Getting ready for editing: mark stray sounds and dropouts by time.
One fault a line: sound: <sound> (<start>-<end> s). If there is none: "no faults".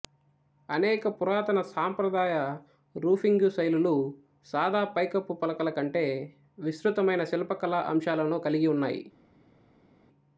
no faults